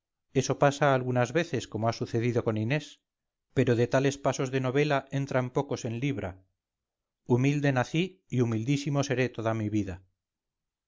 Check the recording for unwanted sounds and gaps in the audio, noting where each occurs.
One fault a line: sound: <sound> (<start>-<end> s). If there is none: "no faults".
no faults